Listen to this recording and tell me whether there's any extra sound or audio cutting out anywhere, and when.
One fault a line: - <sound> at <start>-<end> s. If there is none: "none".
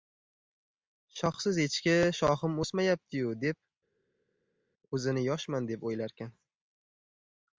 none